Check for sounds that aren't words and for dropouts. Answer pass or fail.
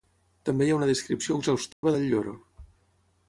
fail